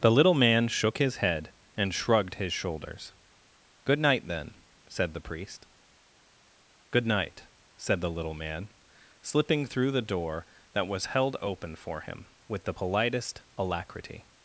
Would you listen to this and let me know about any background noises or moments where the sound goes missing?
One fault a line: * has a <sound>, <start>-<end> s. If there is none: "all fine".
all fine